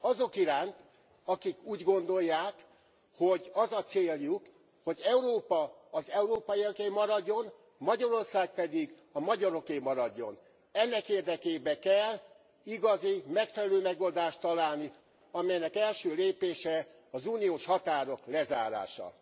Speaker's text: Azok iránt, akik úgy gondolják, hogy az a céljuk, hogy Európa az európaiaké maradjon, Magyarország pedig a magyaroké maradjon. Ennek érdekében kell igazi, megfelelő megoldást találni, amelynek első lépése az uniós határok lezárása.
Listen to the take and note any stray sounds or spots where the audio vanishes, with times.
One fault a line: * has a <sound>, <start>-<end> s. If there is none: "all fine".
all fine